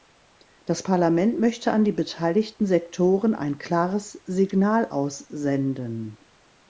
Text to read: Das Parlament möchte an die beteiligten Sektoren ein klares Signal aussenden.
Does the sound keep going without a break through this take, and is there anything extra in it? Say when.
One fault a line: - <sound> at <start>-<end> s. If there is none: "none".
none